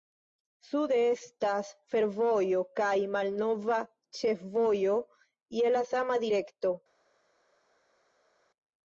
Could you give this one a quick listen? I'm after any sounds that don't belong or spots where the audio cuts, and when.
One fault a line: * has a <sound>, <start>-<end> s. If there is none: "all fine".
all fine